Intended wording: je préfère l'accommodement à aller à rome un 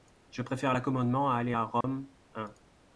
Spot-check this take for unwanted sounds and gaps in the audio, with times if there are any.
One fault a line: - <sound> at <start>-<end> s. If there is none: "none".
- dropout at 1.8-1.8 s